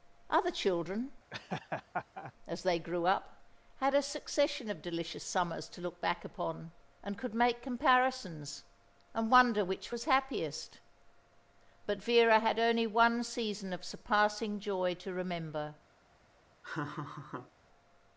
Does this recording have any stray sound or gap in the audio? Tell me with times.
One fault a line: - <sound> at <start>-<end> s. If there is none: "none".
- laugh at 1.3-2.3 s
- laugh at 16.6-17.5 s